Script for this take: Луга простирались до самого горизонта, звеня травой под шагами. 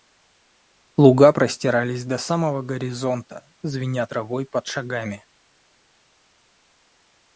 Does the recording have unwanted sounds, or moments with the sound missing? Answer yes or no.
no